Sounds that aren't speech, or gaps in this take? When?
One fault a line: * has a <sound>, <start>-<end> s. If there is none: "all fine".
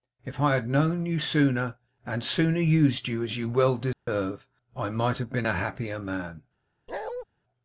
* has a dropout, 3.9-4.1 s
* has a bark, 6.9-7.2 s